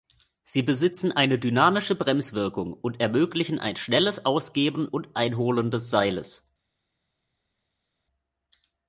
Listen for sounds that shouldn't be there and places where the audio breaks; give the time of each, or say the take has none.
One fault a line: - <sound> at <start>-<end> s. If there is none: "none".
none